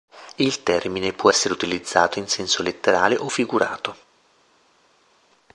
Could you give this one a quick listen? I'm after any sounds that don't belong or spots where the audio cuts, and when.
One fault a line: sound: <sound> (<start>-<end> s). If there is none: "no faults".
no faults